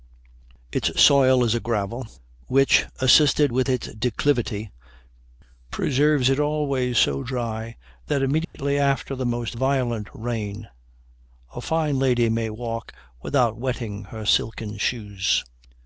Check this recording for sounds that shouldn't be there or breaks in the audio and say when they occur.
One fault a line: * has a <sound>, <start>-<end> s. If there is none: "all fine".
* has a dropout, 8.4-8.5 s